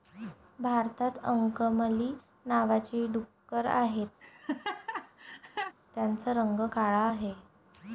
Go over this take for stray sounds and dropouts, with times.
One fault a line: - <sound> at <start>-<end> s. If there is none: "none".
- laugh at 4.2-5.7 s